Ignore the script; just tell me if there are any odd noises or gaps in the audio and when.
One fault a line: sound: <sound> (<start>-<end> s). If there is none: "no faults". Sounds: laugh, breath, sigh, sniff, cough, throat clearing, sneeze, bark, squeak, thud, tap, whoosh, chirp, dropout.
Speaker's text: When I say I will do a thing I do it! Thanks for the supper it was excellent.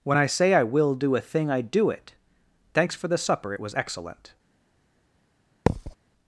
sound: thud (5.7-6.0 s)